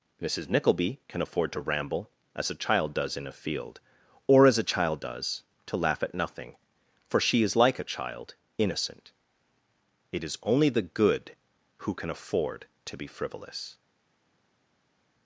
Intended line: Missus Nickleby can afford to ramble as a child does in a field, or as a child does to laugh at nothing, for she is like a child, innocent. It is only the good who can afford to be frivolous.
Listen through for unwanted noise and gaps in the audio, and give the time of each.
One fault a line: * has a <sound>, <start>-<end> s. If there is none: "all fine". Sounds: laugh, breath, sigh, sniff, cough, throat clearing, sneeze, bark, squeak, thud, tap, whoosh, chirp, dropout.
all fine